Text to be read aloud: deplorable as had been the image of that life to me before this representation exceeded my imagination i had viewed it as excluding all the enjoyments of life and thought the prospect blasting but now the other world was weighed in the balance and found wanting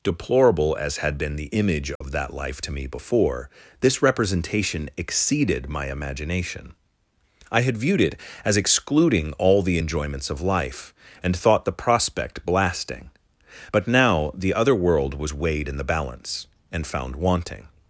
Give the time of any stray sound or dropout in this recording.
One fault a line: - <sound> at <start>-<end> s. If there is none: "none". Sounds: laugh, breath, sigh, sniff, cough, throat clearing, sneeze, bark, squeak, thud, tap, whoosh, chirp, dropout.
- dropout at 2.0-2.0 s